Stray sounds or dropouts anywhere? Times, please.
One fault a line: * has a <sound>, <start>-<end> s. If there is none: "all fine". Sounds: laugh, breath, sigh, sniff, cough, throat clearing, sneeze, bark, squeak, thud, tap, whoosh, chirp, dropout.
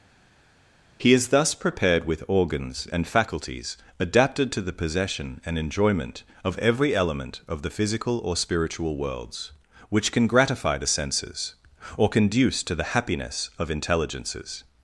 all fine